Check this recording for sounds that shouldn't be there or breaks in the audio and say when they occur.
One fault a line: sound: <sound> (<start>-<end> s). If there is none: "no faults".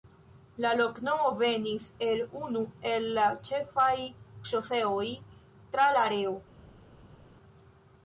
no faults